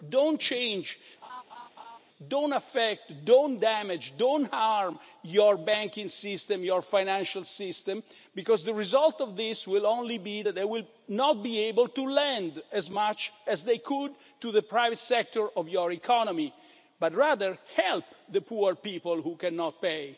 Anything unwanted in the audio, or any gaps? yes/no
yes